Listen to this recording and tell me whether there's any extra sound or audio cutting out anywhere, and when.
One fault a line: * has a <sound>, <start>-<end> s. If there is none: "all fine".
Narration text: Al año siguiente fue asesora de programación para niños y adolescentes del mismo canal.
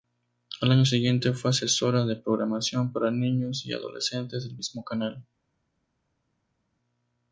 all fine